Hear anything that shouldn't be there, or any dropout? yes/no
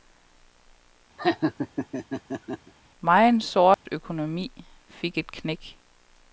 yes